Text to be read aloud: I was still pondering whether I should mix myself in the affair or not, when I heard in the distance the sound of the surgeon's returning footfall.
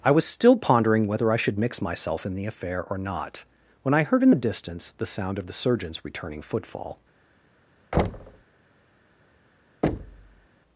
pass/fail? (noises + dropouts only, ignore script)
fail